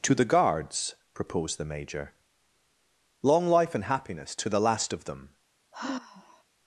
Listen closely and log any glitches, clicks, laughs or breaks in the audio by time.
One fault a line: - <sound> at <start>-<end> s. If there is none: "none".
- sigh at 5.7-6.4 s